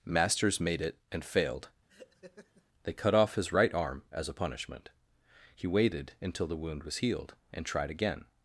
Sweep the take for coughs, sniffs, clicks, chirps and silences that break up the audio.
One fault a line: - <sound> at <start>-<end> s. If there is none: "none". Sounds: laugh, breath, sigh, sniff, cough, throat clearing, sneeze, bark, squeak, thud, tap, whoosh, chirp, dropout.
- laugh at 1.9-2.6 s